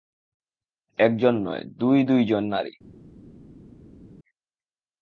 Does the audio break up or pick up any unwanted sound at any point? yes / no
no